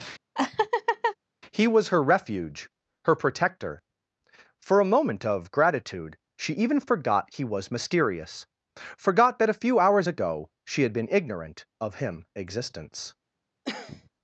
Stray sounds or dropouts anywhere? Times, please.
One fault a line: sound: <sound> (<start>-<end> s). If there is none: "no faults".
sound: laugh (0.4-1.2 s)
sound: cough (13.6-14.1 s)